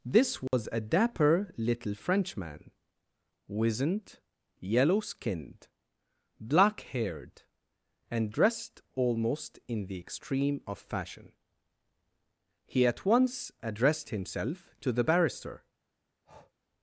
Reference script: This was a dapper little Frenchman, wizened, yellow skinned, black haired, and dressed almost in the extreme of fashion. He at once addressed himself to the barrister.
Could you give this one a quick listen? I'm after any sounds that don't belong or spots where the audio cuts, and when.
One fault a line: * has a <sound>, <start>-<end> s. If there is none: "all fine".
* has a dropout, 0.5-0.5 s
* has a breath, 16.3-16.5 s